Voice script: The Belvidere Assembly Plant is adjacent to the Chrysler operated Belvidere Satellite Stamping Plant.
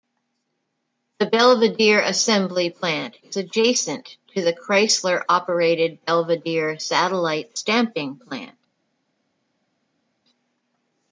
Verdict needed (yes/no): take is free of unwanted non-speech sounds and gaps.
yes